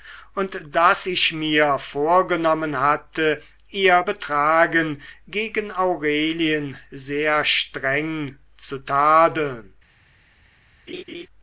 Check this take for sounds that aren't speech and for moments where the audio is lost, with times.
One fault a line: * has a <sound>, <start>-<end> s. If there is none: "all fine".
* has a laugh, 10.9-11.3 s